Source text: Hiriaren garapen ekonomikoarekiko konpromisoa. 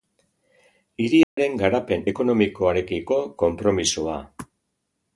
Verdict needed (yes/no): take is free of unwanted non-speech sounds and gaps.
no